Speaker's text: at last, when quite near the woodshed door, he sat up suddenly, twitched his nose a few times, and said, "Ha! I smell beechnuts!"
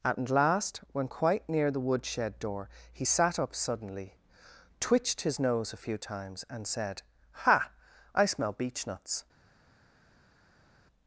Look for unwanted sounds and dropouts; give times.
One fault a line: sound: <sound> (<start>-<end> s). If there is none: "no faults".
no faults